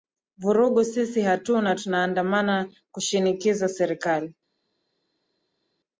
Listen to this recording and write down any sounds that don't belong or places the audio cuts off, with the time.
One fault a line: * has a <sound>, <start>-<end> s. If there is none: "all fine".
all fine